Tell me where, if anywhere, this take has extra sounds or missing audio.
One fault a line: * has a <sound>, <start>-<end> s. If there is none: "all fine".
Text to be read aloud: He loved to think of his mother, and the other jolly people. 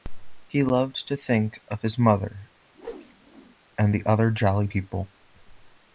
* has a whoosh, 2.7-3.6 s